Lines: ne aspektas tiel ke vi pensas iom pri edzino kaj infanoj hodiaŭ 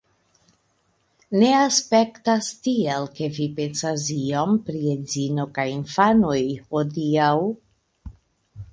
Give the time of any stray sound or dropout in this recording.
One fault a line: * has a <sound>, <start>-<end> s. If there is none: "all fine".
all fine